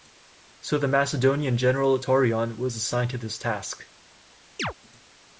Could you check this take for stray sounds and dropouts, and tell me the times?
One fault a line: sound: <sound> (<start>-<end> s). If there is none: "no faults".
sound: chirp (4.6-4.7 s)